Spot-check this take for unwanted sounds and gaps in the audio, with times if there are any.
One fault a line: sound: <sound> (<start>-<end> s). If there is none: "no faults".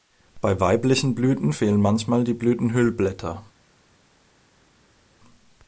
no faults